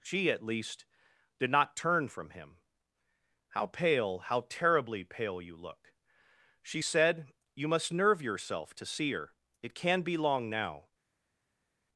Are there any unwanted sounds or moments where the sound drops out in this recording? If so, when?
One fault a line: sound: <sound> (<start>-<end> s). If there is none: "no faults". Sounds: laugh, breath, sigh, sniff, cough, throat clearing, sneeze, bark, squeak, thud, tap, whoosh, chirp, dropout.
no faults